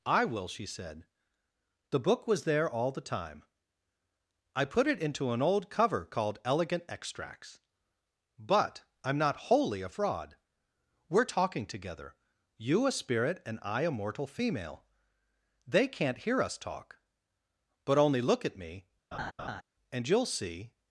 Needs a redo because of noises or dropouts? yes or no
yes